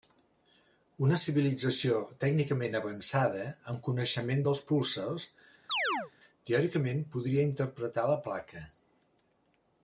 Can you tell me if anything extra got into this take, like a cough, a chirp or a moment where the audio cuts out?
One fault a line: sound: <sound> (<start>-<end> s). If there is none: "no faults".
sound: chirp (5.7-6.1 s)